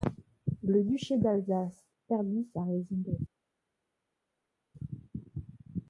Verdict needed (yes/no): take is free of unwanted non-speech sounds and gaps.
yes